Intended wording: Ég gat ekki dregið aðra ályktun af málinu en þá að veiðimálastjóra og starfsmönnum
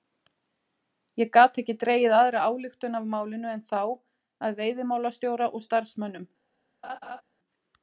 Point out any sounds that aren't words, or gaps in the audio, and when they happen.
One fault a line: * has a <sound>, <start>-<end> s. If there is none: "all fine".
* has a laugh, 6.8-7.2 s